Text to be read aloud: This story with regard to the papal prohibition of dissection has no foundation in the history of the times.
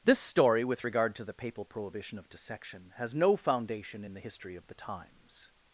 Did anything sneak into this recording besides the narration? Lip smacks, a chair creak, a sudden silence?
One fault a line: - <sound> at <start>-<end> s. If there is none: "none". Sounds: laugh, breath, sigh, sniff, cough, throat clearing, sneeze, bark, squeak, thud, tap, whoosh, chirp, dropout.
none